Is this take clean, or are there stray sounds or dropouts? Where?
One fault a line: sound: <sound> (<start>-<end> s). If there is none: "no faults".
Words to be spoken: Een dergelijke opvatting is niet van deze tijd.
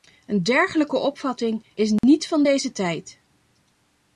sound: dropout (2.0-2.0 s)